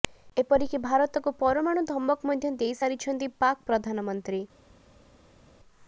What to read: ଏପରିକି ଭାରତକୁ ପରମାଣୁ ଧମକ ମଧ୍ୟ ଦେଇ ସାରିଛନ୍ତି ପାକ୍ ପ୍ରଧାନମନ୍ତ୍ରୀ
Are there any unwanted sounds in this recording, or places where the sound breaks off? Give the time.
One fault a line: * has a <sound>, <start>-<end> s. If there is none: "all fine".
all fine